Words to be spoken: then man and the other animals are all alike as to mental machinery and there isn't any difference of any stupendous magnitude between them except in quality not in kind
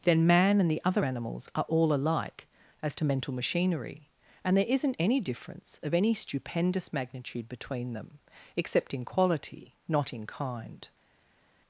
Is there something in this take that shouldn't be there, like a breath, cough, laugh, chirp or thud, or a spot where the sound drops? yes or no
no